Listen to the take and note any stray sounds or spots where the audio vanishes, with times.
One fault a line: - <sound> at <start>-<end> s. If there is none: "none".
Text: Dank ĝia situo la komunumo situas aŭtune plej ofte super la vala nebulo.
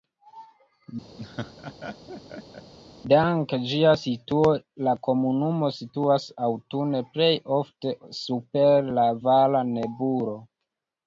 - laugh at 1.2-2.7 s